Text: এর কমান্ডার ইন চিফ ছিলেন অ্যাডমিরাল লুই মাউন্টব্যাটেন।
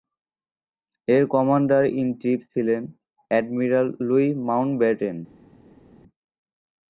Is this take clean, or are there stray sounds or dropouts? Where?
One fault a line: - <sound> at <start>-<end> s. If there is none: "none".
none